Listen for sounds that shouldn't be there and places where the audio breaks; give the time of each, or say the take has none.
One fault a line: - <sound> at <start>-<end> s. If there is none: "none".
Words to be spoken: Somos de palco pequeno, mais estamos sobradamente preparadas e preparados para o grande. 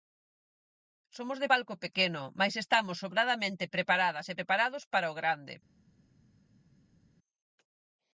none